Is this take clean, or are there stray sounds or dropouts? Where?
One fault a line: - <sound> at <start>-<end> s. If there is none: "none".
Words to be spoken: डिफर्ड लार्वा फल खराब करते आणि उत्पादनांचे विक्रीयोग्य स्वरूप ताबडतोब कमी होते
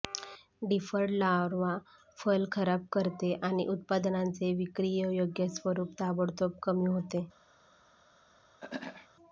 - throat clearing at 8.6-9.1 s